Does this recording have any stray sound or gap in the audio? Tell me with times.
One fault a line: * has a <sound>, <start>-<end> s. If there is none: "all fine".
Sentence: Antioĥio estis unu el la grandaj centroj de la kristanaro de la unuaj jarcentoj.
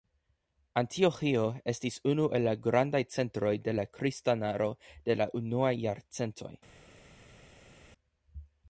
all fine